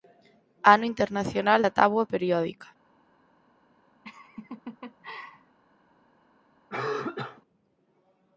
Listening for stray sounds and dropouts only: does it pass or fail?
fail